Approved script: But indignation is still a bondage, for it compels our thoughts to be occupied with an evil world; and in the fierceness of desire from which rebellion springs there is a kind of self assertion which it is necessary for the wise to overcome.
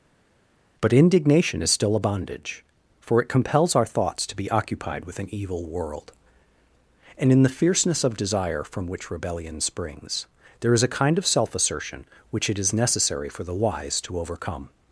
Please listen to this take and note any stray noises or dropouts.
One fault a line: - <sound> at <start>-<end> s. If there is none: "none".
none